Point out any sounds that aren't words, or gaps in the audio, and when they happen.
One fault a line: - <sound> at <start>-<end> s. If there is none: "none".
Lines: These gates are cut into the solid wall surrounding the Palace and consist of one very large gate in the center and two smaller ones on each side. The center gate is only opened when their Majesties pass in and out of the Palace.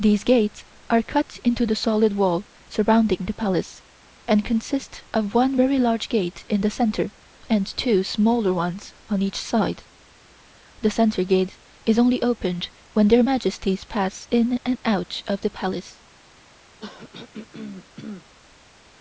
- throat clearing at 16.8-18.3 s